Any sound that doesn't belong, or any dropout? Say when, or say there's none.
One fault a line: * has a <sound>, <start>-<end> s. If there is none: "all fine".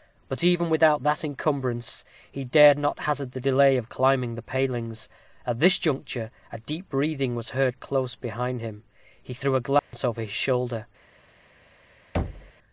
* has a dropout, 9.8-9.9 s
* has a thud, 12.1-12.5 s